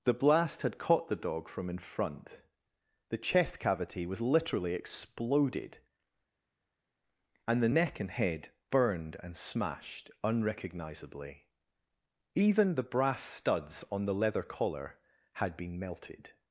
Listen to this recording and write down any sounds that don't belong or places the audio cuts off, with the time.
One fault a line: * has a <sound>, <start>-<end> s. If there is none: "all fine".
all fine